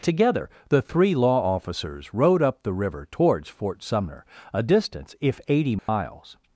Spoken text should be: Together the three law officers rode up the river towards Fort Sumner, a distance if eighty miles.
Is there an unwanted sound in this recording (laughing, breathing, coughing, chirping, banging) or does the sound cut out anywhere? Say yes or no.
yes